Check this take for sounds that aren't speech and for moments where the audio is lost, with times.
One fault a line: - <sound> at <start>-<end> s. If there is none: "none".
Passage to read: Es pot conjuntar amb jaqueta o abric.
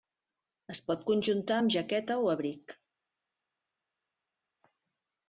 none